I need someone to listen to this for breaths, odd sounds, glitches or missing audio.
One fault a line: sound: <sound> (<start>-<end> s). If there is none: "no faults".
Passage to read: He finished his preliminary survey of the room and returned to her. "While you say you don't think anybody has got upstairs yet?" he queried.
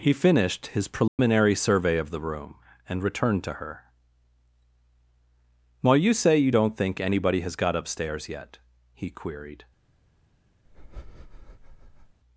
sound: dropout (1.1-1.2 s)
sound: breath (10.6-12.2 s)